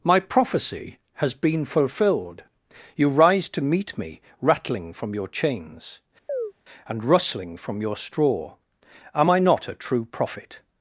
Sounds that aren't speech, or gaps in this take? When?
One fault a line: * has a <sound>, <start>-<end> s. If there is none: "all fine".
* has a chirp, 6.3-6.5 s